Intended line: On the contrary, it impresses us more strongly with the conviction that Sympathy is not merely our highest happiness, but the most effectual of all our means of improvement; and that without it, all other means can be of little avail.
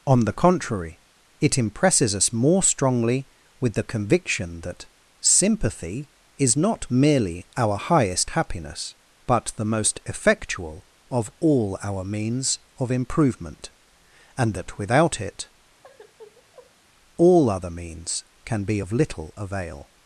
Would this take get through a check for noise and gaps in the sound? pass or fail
fail